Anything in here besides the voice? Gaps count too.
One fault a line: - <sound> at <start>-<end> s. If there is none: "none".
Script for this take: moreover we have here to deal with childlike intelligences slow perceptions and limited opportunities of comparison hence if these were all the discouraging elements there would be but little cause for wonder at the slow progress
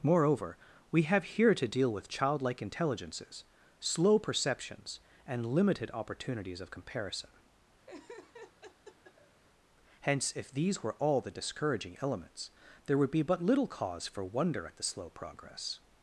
- laugh at 7.9-9.4 s